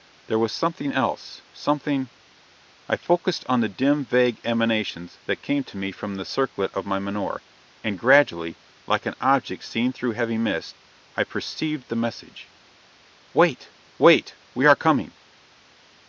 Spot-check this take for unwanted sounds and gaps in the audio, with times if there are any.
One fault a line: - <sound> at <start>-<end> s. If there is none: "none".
none